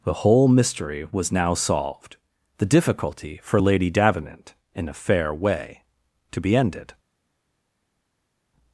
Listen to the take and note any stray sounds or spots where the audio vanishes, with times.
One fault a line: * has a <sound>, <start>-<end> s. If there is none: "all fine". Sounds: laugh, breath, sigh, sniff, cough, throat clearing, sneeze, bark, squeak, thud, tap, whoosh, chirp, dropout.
all fine